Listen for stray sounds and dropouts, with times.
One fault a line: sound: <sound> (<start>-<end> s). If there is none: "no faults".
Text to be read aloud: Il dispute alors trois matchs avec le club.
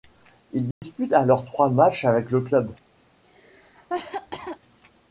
sound: dropout (0.7-0.8 s)
sound: cough (3.2-4.6 s)